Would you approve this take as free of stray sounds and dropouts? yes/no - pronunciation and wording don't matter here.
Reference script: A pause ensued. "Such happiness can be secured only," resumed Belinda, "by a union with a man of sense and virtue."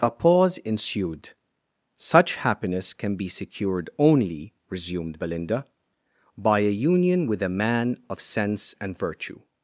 yes